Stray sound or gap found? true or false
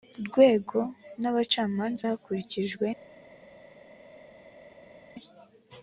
false